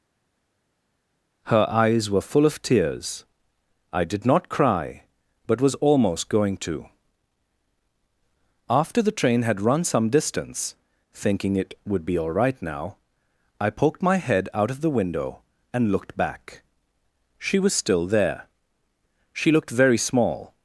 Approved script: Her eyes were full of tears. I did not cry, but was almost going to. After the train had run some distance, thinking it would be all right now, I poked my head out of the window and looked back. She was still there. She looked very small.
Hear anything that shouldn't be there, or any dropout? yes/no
no